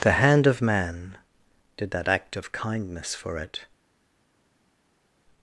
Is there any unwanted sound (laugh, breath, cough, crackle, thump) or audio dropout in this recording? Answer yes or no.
no